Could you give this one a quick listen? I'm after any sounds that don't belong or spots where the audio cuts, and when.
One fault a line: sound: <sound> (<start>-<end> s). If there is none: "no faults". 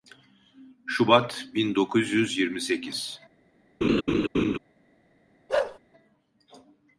sound: laugh (3.8-4.6 s)
sound: bark (5.5-5.8 s)